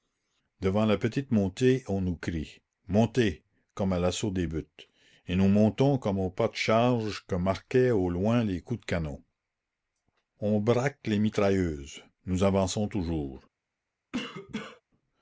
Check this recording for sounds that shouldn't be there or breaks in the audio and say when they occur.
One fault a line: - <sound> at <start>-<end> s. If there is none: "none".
- cough at 14.1-14.8 s